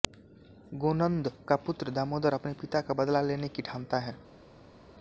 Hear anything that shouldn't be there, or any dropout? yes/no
no